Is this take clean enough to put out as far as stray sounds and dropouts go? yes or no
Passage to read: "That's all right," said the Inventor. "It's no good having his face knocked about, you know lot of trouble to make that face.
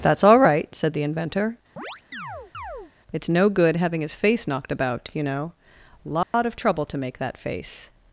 no